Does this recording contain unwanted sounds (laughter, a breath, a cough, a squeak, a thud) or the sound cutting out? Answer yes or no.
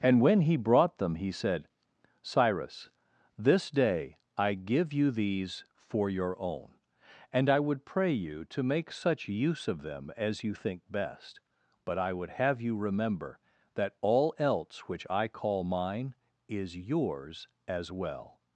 no